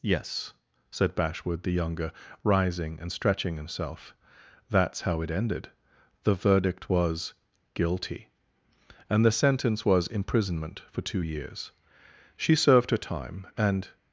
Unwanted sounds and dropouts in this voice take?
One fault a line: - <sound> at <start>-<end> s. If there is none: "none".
none